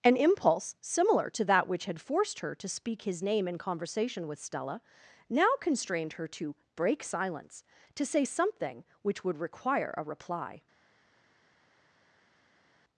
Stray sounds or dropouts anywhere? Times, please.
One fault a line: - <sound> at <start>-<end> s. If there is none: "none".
none